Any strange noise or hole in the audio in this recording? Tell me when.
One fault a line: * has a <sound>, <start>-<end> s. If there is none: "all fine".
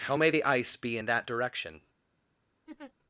* has a laugh, 2.7-2.9 s